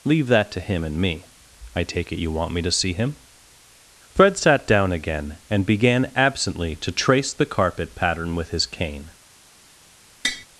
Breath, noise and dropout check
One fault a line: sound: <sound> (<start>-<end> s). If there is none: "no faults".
sound: tap (10.2-10.5 s)